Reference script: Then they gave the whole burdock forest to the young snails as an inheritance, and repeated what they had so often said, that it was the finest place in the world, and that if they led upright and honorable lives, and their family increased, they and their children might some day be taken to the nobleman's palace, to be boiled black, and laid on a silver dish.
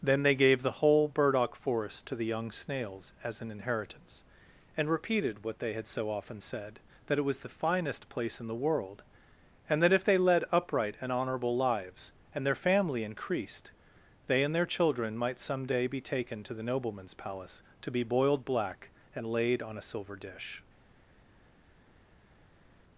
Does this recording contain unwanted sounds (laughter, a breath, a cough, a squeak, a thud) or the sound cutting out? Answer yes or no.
no